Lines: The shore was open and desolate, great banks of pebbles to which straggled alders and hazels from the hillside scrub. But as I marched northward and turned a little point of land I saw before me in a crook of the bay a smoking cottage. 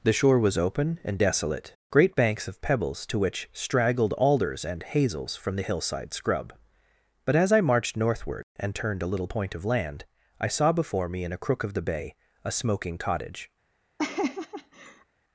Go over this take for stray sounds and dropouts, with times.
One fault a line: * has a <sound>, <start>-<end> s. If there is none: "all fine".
* has a laugh, 14.0-15.1 s